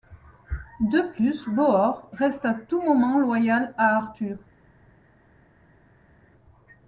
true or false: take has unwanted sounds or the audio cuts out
false